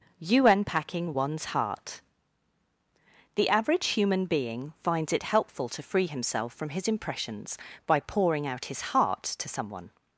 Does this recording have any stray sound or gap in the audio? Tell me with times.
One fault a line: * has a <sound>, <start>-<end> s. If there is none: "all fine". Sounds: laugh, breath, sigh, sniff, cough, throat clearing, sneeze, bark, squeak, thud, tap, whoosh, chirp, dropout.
all fine